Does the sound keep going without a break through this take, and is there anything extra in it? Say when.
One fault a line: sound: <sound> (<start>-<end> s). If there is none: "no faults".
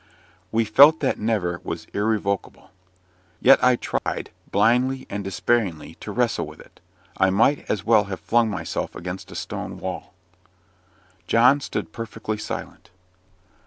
sound: dropout (4.0-4.1 s)